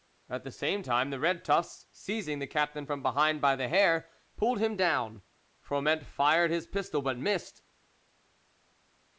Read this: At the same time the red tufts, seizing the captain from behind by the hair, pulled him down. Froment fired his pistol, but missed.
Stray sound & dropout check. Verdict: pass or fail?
pass